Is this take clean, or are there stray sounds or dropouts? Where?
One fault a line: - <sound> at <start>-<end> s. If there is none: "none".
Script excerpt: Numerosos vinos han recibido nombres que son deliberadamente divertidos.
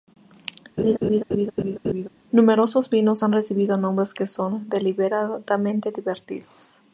- laugh at 0.8-2.1 s